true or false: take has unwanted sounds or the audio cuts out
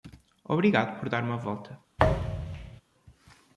true